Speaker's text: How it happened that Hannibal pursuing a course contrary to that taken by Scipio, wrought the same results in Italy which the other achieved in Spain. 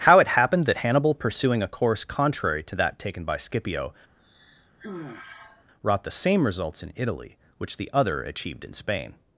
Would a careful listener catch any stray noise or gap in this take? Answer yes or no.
yes